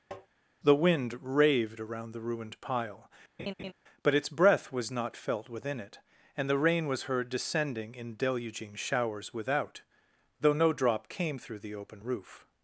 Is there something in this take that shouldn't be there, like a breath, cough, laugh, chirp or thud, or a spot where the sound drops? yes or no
yes